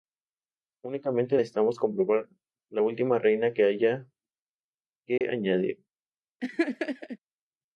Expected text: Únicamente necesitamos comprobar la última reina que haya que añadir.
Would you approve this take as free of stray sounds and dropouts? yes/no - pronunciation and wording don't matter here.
no